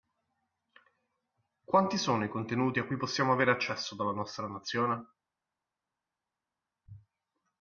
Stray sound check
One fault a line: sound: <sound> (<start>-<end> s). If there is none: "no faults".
no faults